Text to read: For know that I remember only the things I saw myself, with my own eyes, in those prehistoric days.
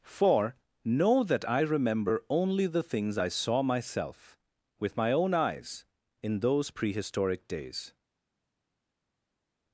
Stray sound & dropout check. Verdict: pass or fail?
pass